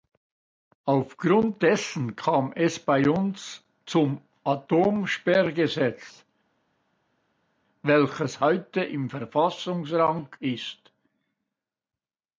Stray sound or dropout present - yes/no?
no